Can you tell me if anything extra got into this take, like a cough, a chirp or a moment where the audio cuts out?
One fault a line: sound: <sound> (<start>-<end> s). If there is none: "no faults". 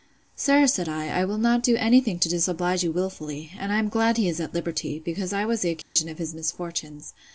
sound: dropout (5.8-6.0 s)